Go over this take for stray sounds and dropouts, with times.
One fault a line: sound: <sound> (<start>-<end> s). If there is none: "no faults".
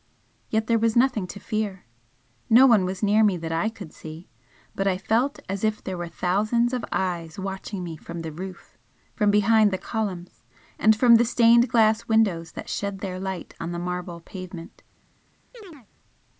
sound: chirp (15.5-15.9 s)